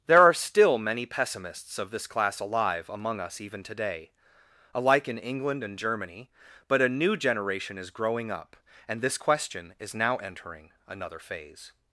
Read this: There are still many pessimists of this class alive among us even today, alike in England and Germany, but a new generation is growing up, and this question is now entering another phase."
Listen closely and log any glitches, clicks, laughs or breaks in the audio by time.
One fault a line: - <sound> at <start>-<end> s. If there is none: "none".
none